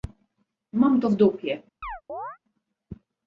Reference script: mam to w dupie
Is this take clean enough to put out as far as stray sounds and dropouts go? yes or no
no